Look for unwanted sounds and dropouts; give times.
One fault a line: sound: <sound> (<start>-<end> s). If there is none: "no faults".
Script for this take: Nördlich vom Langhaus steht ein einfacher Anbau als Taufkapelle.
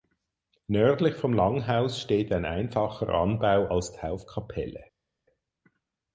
no faults